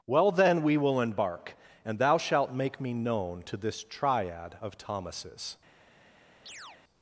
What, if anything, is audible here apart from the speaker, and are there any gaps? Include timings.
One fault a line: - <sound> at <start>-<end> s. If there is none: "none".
- chirp at 6.5-6.8 s